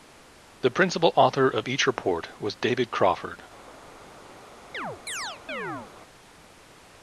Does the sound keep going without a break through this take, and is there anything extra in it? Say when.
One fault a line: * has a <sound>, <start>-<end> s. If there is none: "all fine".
* has a chirp, 4.7-5.9 s